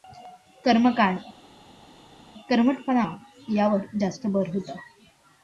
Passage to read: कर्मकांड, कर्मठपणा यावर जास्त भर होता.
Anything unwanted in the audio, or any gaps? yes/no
no